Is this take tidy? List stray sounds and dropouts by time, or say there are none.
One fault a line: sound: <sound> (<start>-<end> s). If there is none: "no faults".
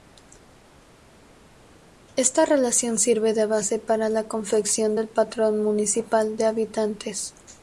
no faults